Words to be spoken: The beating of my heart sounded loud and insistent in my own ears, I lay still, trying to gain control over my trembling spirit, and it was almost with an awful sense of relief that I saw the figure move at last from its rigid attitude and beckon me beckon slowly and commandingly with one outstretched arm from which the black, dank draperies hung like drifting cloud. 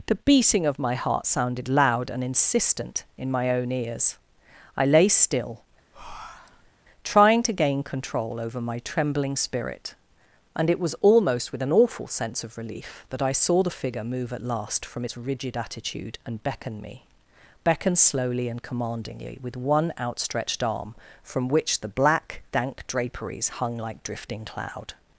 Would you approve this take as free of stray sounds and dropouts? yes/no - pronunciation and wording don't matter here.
no